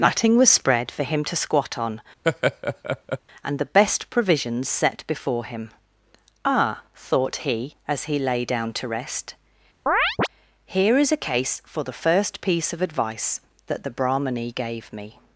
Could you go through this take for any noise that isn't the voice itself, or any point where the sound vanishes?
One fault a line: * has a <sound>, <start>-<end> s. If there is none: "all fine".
* has a laugh, 2.2-3.2 s
* has a chirp, 9.9-10.3 s